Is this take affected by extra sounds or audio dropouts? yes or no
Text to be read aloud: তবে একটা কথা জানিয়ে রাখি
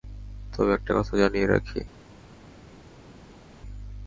no